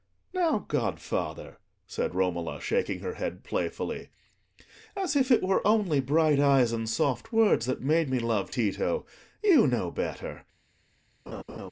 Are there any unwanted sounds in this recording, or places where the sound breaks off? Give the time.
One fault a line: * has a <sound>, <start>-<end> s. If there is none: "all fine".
* has a laugh, 11.3-11.7 s